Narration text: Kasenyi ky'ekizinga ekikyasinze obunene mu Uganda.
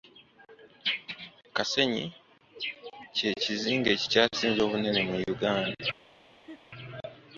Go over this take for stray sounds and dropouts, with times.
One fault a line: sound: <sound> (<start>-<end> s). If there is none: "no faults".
sound: laugh (6.4-6.6 s)